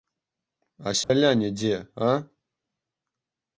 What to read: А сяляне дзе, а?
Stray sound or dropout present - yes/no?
yes